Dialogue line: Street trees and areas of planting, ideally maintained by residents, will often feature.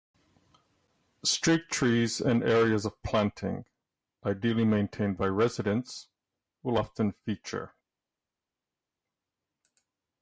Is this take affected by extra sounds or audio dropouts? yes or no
no